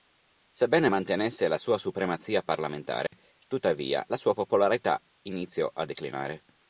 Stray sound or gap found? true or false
true